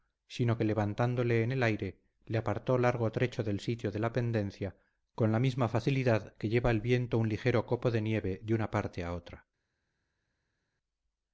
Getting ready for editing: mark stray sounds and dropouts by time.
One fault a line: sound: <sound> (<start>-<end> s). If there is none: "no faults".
no faults